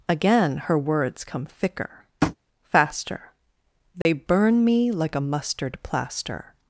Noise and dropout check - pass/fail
fail